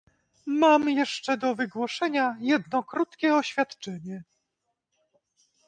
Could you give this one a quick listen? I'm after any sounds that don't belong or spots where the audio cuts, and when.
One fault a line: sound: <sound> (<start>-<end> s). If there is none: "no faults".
no faults